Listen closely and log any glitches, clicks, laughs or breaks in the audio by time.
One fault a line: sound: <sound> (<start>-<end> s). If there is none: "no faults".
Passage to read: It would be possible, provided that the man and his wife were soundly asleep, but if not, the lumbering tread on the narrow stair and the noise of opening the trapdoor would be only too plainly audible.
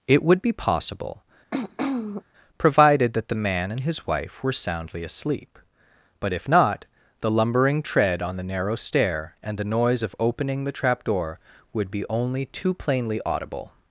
sound: throat clearing (1.5-2.2 s)